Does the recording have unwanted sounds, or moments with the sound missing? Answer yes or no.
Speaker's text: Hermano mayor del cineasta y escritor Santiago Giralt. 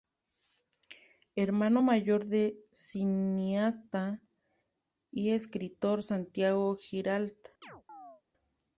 yes